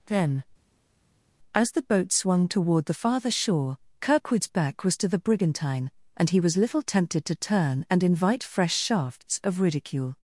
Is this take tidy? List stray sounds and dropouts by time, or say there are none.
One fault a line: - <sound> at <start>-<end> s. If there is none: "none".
none